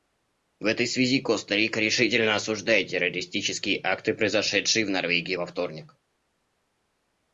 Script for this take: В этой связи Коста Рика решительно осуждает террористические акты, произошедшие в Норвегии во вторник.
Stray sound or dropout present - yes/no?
no